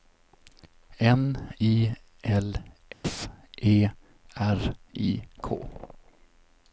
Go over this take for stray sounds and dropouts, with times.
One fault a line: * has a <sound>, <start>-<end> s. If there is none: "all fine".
* has a dropout, 2.9-3.0 s